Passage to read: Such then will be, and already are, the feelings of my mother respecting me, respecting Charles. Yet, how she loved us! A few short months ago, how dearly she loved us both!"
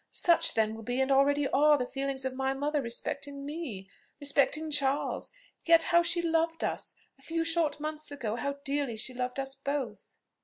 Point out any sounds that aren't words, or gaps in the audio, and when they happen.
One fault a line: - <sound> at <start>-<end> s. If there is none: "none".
none